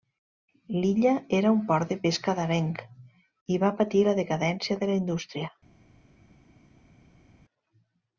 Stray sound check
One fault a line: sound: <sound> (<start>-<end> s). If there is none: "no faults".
no faults